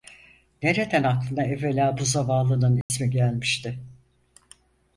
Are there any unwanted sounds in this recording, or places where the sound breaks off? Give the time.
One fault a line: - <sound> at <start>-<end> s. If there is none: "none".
- dropout at 2.8-2.9 s